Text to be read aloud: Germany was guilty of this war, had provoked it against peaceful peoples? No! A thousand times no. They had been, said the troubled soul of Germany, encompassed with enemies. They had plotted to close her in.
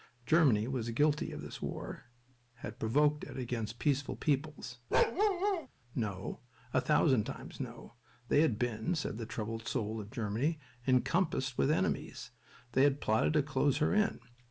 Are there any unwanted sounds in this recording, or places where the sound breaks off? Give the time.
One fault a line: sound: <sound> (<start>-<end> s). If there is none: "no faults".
sound: bark (4.9-5.7 s)